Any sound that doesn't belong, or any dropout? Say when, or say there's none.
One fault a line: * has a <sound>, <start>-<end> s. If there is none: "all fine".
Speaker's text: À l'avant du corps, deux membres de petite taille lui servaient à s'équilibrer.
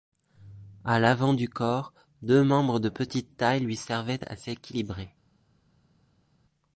all fine